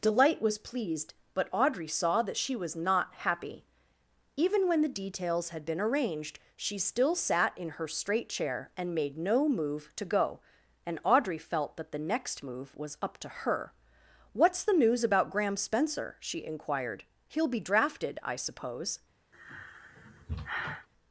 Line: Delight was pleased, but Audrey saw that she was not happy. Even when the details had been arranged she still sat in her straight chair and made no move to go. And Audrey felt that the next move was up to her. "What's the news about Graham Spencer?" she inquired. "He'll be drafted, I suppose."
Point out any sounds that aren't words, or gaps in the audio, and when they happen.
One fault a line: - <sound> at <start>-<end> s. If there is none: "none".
- sigh at 19.3-20.9 s